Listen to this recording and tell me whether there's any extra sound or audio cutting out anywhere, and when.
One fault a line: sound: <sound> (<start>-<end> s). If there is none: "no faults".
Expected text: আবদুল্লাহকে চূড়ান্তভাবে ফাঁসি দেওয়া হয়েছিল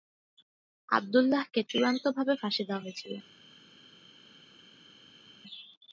no faults